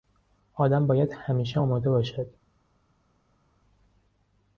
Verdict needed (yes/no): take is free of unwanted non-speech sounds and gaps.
yes